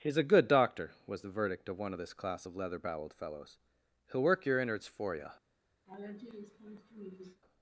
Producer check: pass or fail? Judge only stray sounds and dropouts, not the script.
fail